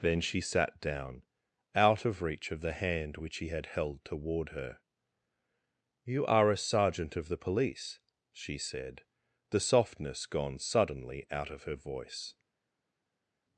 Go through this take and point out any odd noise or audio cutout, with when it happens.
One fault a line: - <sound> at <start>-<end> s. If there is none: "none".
none